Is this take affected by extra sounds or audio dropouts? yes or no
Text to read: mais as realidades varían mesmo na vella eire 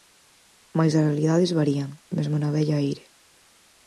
no